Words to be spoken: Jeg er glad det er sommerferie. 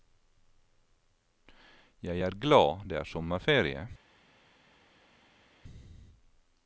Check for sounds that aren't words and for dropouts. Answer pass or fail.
pass